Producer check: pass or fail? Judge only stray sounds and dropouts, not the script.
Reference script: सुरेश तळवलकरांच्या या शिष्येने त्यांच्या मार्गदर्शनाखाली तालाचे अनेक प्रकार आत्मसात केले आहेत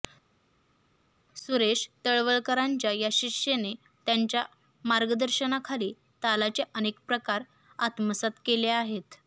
pass